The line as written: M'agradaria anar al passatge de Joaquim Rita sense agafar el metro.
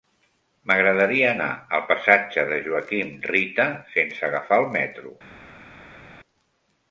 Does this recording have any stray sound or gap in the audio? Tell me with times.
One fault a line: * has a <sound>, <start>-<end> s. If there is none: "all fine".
all fine